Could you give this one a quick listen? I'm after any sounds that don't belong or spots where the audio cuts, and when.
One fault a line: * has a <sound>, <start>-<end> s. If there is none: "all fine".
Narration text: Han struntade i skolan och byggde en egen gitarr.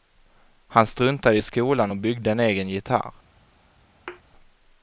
* has a thud, 4.1-4.2 s